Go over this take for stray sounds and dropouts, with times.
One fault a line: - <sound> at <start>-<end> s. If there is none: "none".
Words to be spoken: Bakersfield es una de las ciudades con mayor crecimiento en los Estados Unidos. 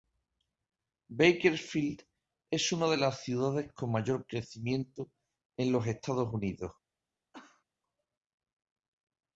- cough at 7.3-7.6 s